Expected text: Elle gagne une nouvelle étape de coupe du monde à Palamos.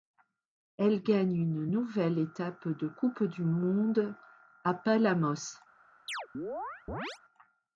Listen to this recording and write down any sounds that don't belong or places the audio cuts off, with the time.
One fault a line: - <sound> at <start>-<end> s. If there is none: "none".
- chirp at 6.1-7.2 s